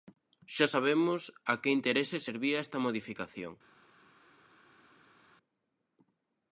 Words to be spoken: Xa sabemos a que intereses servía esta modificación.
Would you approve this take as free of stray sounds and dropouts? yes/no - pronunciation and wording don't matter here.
yes